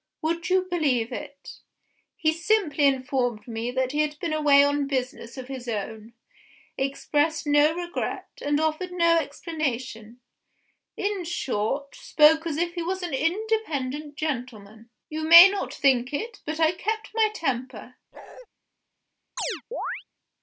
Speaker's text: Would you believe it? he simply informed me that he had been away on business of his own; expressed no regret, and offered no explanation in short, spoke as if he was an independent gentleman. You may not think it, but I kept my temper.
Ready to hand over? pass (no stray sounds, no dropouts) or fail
fail